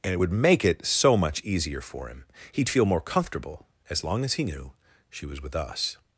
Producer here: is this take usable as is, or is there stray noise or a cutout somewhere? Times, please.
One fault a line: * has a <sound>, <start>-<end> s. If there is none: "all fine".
all fine